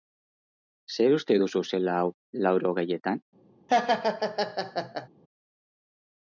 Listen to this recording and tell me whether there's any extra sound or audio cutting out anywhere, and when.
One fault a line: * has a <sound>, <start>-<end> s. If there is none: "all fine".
* has a laugh, 3.7-5.1 s